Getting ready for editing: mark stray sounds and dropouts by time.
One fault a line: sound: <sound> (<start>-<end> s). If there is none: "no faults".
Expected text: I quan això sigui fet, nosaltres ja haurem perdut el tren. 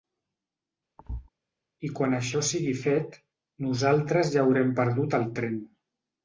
sound: thud (1.0-1.3 s)